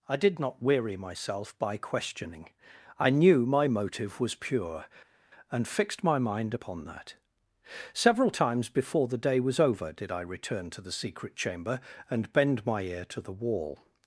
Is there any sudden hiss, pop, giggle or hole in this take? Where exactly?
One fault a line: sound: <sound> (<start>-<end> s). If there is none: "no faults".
no faults